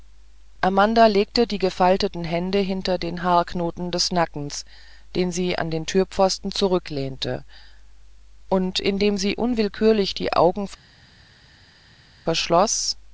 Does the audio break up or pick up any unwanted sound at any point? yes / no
no